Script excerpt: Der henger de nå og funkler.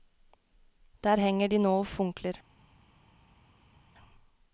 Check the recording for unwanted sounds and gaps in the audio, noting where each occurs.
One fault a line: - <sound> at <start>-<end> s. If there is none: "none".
none